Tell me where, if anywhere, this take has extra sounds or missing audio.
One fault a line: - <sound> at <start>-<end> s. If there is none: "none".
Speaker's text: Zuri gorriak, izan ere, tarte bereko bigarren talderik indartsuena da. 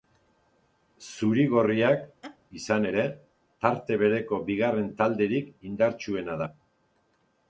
- laugh at 2.2-2.4 s